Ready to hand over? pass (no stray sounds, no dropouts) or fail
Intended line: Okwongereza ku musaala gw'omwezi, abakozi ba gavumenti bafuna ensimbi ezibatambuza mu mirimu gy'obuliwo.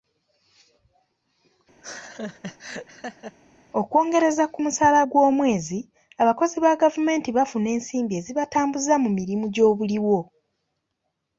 fail